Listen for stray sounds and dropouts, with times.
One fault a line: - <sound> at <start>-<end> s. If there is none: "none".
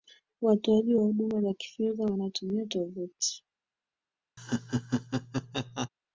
- laugh at 4.4-5.9 s